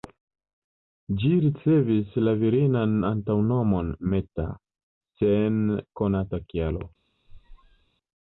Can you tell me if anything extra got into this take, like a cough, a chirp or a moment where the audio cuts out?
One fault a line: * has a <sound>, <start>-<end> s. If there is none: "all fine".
* has a squeak, 7.3-7.9 s